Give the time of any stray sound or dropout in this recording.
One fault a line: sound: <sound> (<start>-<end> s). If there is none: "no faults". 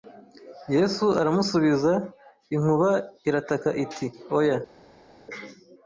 no faults